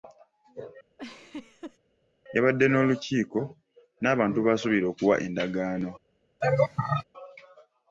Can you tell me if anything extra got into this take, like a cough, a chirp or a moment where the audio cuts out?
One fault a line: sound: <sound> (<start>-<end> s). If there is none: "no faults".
sound: laugh (1.0-1.8 s)
sound: laugh (6.4-7.0 s)